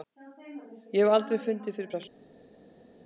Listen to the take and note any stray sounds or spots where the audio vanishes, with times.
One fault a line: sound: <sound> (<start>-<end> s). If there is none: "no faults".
no faults